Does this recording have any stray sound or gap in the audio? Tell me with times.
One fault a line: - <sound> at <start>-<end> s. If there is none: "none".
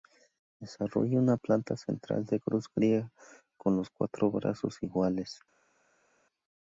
none